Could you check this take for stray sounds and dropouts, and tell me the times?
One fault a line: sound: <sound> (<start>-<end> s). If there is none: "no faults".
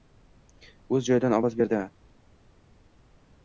no faults